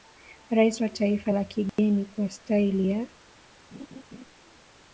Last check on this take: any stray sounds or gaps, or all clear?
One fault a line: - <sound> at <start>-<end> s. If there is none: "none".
- dropout at 1.7-1.8 s
- laugh at 3.7-4.3 s